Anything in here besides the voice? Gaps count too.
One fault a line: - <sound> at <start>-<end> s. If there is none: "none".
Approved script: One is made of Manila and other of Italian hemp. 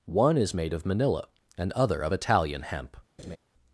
- laugh at 3.2-3.4 s